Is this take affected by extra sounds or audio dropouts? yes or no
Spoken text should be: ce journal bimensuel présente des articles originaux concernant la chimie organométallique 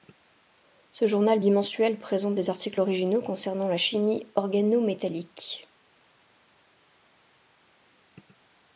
no